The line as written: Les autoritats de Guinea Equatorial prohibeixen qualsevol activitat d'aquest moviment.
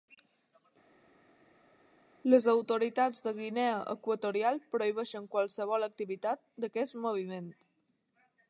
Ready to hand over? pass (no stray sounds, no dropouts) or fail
pass